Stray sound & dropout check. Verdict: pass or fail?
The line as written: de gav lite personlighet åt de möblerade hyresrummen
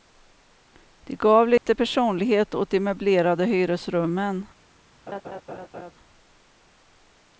fail